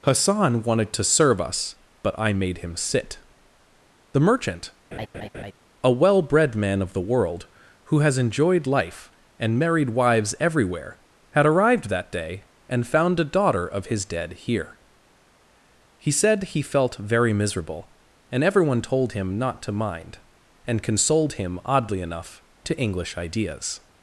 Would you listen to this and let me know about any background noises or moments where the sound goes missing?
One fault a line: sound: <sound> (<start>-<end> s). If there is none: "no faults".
sound: laugh (4.9-5.5 s)